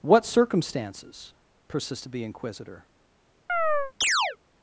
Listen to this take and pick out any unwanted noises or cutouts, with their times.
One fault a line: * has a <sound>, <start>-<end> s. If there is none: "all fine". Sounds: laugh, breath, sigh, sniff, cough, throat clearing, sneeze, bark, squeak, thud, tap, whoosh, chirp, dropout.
* has a chirp, 3.5-4.4 s